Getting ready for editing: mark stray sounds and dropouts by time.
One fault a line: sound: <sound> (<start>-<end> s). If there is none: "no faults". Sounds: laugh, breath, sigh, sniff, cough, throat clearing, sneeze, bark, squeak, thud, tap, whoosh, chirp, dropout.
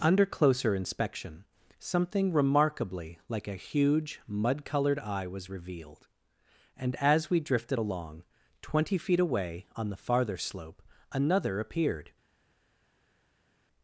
no faults